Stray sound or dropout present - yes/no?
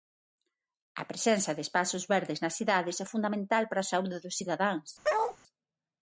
yes